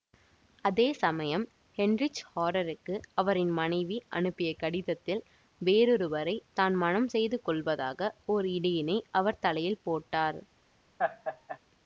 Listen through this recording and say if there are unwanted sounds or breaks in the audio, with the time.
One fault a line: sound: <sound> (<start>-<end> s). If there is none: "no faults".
sound: laugh (11.0-11.6 s)